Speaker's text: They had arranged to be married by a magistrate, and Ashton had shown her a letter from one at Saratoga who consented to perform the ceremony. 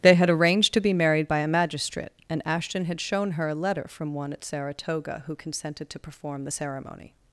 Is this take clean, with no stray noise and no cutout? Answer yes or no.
yes